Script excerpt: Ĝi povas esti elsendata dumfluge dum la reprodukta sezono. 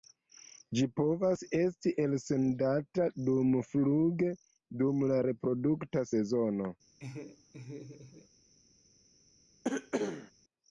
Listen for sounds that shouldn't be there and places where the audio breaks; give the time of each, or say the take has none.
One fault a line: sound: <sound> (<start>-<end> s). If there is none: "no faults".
sound: laugh (7.0-8.3 s)
sound: cough (9.6-10.3 s)